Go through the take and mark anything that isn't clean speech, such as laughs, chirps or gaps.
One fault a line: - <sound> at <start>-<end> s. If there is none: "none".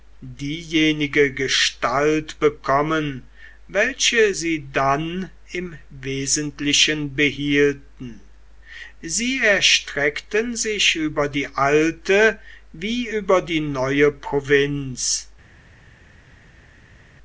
none